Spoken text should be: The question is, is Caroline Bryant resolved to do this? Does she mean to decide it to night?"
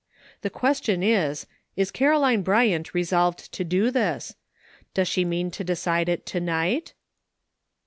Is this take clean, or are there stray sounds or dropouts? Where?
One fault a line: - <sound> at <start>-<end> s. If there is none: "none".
none